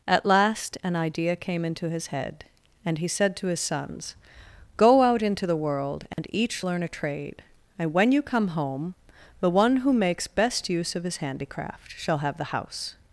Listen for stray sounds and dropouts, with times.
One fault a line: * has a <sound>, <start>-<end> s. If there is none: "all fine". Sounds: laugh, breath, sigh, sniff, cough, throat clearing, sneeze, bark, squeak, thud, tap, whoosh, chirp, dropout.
* has a dropout, 6.1-6.2 s